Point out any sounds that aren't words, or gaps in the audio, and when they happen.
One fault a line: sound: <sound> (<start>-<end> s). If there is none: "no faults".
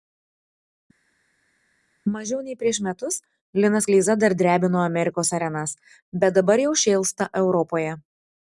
no faults